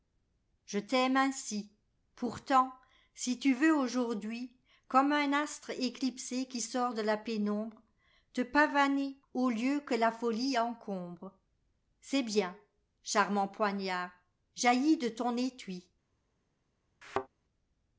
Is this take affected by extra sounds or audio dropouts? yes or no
yes